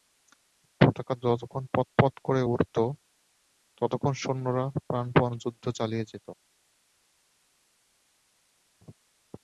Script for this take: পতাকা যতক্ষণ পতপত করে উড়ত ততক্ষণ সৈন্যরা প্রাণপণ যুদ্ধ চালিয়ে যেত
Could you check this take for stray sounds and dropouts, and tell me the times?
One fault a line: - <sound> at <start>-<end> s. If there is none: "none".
none